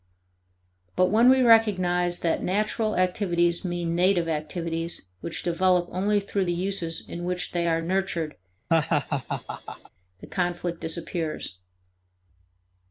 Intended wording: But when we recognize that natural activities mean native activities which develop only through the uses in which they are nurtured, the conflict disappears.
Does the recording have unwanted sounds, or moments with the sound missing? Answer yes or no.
yes